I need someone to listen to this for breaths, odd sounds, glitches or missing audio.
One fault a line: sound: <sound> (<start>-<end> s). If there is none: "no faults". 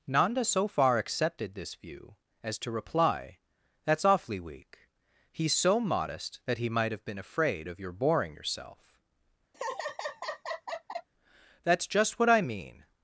sound: laugh (9.5-11.1 s)